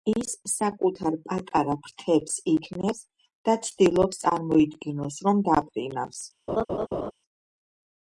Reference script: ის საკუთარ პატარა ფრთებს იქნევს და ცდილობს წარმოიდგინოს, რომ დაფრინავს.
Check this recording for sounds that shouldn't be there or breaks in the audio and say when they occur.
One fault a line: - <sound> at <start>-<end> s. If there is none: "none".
- laugh at 6.5-7.1 s